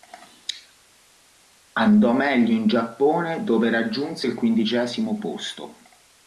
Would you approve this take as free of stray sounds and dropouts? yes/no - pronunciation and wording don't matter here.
yes